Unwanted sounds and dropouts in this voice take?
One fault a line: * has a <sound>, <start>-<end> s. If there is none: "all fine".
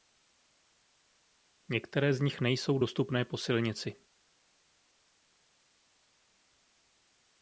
all fine